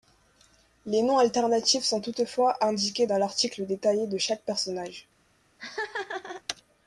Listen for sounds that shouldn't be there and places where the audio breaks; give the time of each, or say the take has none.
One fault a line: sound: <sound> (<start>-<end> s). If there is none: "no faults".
sound: laugh (5.6-6.4 s)